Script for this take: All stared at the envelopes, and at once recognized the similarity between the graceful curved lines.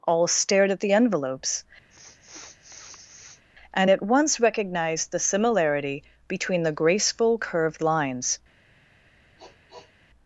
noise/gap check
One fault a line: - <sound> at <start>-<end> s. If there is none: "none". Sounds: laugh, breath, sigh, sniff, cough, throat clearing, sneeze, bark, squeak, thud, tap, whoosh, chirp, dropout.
- sniff at 1.9-3.4 s
- sniff at 9.4-9.9 s